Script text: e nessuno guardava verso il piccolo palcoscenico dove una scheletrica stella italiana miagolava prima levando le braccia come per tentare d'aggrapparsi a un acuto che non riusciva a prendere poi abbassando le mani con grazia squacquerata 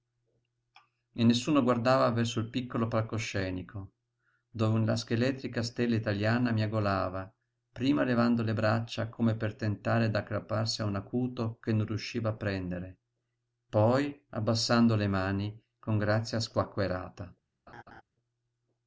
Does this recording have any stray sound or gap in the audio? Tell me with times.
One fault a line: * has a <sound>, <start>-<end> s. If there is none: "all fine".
* has a laugh, 17.7-18.0 s